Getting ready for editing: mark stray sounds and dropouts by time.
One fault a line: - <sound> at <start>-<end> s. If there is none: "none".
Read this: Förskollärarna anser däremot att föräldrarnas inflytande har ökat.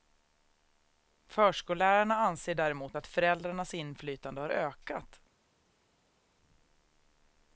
none